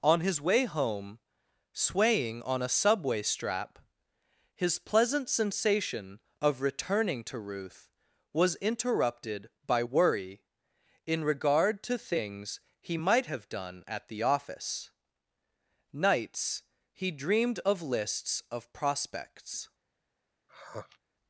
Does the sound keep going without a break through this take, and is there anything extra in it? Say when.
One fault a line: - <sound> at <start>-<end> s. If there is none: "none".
- sigh at 20.5-21.0 s